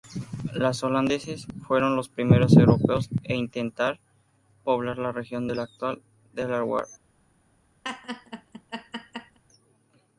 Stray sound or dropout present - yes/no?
yes